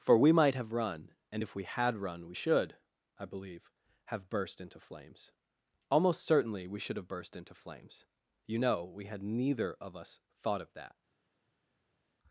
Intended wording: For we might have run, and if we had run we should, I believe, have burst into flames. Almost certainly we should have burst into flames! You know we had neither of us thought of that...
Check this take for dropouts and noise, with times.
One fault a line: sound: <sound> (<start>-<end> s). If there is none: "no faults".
no faults